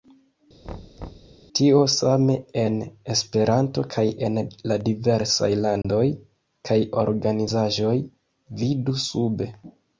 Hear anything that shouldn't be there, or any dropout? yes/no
yes